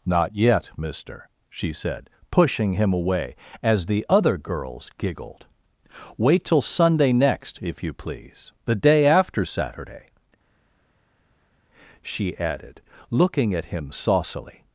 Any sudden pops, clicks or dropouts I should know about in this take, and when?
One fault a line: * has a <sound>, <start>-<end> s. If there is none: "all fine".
all fine